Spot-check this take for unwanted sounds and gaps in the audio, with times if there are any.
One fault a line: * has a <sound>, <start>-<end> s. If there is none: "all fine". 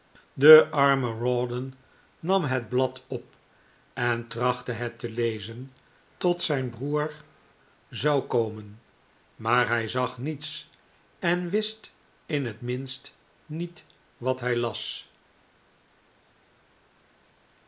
all fine